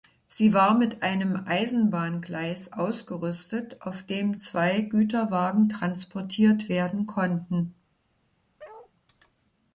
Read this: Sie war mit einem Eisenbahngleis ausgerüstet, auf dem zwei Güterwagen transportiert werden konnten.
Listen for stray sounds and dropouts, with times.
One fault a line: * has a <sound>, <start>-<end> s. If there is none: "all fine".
* has a bark, 8.6-8.9 s